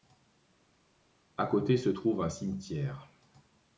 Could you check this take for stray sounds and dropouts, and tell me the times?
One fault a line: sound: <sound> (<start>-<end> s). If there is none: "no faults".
no faults